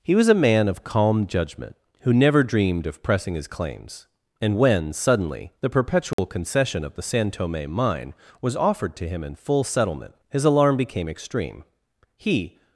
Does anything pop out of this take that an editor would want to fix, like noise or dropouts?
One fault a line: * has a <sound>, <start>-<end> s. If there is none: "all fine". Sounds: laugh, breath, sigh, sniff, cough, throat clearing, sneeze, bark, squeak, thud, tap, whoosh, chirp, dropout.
* has a dropout, 6.1-6.2 s